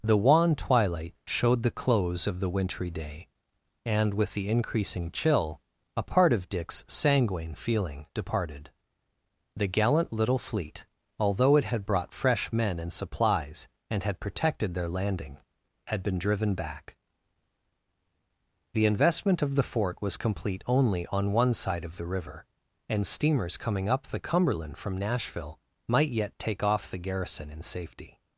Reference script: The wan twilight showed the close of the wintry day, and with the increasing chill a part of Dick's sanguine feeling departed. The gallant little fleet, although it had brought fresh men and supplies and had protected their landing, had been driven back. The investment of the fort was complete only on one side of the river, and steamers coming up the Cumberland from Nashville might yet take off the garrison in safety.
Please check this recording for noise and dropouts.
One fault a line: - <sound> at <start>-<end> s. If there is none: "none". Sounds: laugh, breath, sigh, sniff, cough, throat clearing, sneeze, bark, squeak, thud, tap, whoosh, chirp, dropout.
none